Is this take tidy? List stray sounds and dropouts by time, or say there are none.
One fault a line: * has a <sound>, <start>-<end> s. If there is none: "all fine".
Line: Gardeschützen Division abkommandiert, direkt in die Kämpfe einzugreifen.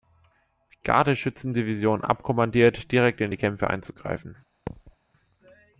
* has a thud, 4.7-5.0 s